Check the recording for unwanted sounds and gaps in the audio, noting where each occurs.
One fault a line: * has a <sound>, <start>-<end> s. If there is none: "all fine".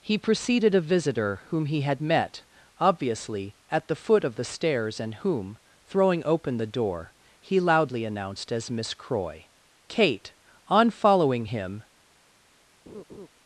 * has a laugh, 12.9-13.3 s